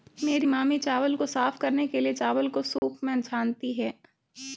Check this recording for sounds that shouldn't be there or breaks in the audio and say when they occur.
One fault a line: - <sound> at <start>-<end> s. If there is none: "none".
- dropout at 2.8-2.8 s